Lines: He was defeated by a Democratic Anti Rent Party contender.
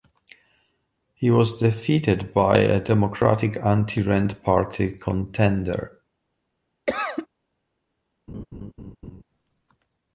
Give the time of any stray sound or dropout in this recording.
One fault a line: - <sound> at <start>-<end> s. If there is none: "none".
- cough at 6.9-7.3 s
- laugh at 8.3-9.2 s